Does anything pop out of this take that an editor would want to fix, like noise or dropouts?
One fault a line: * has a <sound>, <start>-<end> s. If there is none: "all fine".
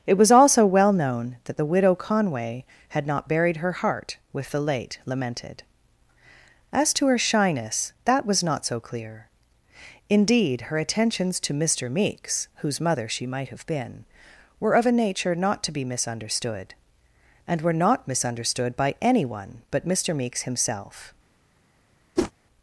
* has a whoosh, 22.2-22.3 s